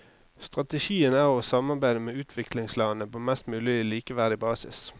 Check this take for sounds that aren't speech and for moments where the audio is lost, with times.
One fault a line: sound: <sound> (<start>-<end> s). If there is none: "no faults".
no faults